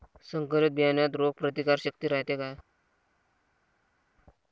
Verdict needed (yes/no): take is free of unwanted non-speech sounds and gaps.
yes